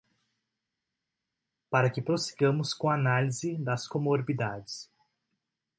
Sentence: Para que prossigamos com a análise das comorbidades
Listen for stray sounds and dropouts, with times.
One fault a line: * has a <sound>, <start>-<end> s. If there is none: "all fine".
all fine